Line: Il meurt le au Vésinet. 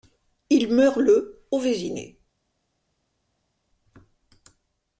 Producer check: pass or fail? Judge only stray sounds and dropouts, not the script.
pass